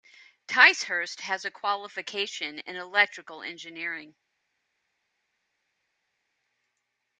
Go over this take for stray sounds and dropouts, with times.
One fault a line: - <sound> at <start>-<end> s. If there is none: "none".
none